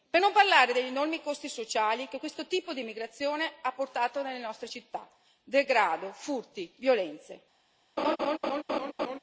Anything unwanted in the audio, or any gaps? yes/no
yes